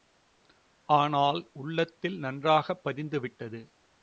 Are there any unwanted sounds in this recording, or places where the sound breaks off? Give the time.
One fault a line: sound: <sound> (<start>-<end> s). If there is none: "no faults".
no faults